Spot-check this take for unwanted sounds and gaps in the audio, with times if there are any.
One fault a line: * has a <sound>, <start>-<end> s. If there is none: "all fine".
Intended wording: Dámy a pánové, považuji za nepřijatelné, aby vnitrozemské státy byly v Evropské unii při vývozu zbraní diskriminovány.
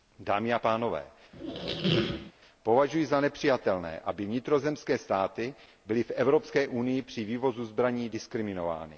* has a squeak, 1.3-2.3 s